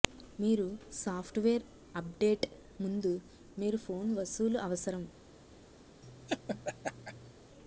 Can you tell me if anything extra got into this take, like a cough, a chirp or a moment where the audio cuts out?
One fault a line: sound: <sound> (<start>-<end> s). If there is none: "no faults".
sound: laugh (6.0-7.3 s)